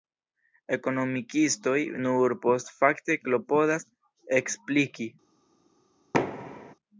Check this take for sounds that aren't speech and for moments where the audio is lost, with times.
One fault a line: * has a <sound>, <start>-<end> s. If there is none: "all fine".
* has a thud, 6.1-6.7 s